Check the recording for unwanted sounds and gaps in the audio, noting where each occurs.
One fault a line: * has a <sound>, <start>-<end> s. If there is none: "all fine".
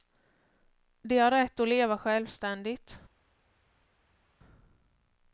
all fine